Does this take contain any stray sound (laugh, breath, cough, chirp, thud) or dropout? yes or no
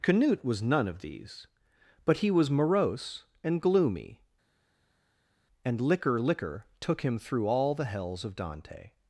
no